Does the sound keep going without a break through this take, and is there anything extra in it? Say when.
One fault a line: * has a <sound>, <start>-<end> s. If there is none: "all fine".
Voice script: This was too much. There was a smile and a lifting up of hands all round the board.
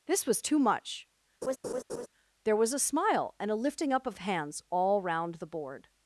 * has a laugh, 1.4-2.1 s